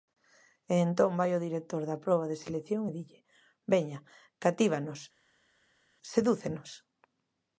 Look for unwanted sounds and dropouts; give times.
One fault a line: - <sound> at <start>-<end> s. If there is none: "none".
none